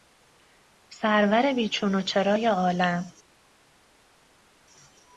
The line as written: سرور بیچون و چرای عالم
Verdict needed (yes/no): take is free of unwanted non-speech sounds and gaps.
yes